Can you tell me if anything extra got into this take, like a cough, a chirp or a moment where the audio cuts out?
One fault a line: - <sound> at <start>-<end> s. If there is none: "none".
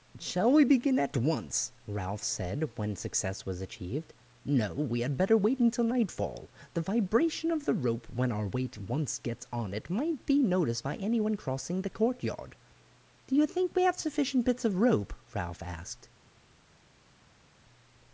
none